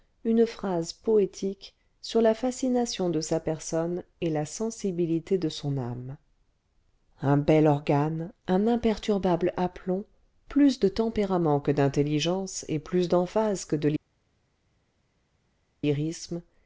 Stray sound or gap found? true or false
false